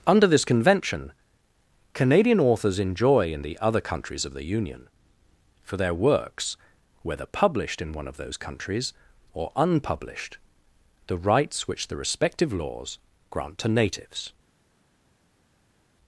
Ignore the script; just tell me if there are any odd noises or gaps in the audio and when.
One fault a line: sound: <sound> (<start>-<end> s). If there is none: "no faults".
no faults